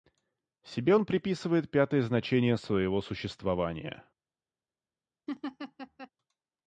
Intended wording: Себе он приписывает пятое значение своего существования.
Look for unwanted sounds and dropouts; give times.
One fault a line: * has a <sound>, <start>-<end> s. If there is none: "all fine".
* has a laugh, 5.3-6.1 s